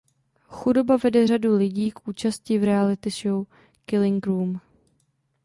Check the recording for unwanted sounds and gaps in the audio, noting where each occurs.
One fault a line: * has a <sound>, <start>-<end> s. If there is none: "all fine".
all fine